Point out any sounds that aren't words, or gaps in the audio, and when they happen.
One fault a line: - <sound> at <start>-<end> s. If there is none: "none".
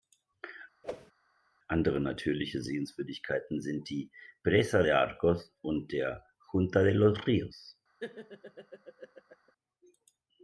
- whoosh at 0.8-1.1 s
- laugh at 8.0-9.5 s